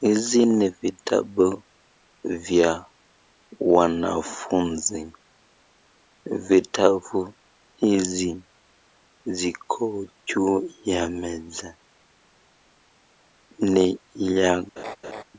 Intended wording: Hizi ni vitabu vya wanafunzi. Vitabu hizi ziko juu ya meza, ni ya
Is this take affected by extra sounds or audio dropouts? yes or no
yes